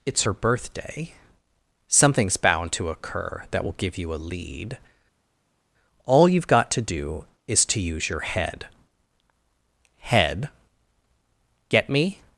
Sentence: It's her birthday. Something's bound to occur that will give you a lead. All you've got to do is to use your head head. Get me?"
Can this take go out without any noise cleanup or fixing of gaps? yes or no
yes